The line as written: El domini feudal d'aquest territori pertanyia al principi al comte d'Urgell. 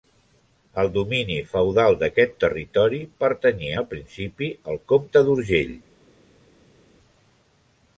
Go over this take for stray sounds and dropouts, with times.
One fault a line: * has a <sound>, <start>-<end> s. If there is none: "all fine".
all fine